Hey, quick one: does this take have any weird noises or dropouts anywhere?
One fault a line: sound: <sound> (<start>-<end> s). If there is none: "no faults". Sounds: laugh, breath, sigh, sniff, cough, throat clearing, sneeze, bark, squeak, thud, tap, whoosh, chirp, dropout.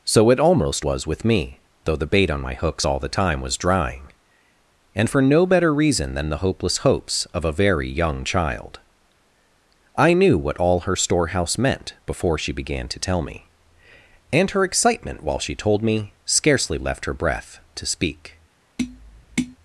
sound: tap (18.8-19.6 s)